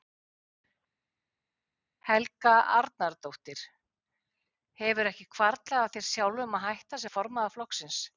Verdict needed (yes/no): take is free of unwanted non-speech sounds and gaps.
yes